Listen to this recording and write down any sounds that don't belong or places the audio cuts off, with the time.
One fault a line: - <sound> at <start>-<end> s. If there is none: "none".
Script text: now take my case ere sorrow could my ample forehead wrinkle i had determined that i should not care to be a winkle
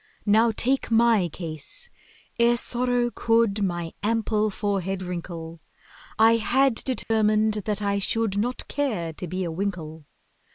- dropout at 7.0-7.1 s